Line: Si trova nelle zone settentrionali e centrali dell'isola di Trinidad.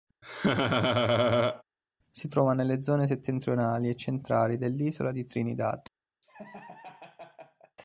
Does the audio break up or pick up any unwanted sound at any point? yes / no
yes